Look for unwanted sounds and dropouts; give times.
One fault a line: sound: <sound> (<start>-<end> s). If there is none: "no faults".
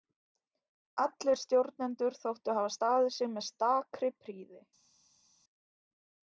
no faults